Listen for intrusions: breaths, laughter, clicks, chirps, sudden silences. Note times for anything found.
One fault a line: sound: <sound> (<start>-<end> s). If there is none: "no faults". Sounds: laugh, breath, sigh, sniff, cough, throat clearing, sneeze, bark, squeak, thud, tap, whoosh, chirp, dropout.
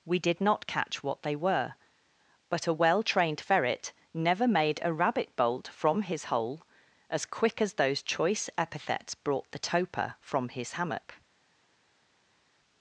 no faults